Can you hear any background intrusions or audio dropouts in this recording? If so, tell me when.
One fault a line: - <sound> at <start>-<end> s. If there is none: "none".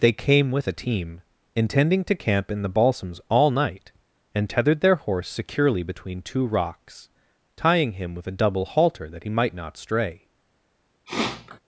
- sniff at 11.1-11.6 s